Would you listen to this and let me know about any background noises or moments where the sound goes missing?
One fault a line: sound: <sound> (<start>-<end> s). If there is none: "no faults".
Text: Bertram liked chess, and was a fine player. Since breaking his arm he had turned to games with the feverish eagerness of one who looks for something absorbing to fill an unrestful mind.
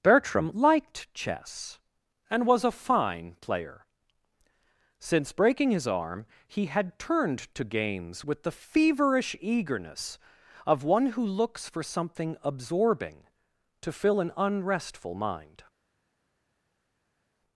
no faults